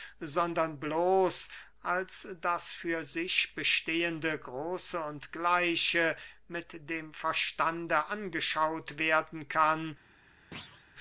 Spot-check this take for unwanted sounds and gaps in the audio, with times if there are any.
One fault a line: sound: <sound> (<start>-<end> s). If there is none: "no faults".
sound: thud (10.5-10.9 s)